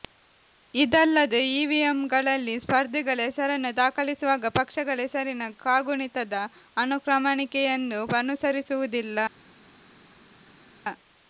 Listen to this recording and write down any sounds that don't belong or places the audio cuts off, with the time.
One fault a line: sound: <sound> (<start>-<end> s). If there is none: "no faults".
no faults